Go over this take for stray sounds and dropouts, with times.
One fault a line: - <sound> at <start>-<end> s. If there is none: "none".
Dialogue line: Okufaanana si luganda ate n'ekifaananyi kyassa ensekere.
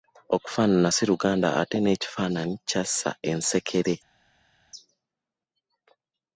none